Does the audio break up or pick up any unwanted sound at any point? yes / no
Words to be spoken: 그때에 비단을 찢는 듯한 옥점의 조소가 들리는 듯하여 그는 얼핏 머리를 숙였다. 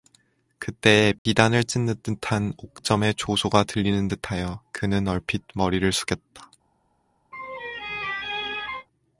yes